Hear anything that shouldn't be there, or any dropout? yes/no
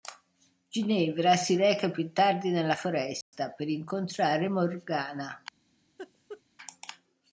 yes